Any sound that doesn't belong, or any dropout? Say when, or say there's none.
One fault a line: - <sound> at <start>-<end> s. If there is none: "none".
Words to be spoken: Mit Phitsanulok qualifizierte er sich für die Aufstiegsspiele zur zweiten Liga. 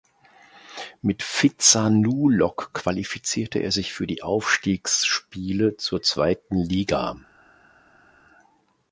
none